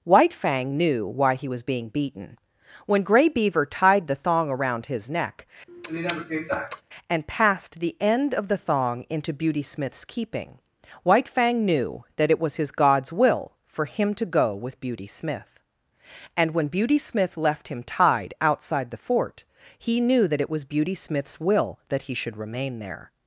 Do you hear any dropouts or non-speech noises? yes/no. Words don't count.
yes